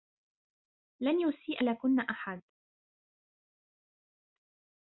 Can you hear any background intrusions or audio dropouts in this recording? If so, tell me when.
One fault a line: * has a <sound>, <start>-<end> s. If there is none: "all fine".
all fine